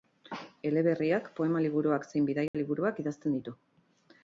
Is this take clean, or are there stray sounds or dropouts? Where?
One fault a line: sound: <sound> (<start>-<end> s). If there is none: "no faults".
sound: dropout (2.5-2.5 s)